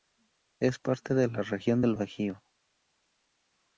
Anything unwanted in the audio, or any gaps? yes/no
no